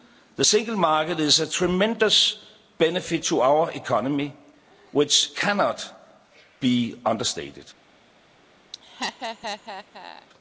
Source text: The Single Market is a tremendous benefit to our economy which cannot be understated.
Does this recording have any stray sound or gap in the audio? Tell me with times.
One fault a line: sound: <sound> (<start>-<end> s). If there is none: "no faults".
sound: laugh (8.7-10.3 s)